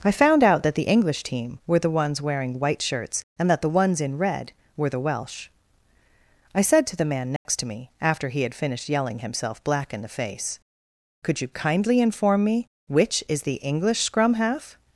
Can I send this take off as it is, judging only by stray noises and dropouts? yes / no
no